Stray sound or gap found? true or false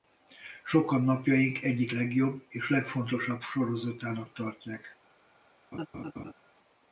true